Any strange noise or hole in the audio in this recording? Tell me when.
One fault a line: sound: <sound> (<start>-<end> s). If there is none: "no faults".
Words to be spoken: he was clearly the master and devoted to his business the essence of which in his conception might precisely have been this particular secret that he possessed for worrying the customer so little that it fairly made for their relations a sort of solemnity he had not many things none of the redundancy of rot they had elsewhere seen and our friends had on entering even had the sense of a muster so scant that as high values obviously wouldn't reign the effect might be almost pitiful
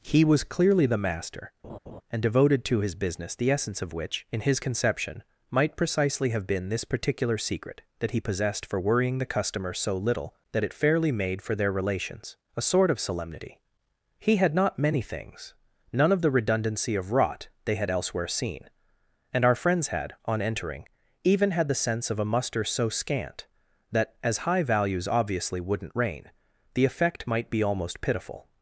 sound: laugh (1.6-2.0 s)